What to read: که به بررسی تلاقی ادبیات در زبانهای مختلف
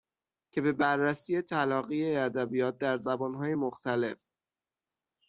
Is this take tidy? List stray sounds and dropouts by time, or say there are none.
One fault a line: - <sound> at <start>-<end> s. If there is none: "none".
none